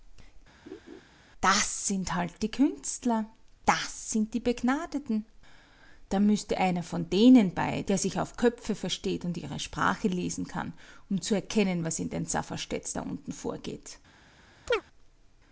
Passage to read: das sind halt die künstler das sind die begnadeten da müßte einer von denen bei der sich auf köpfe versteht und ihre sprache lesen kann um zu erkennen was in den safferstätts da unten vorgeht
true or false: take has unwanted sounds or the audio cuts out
true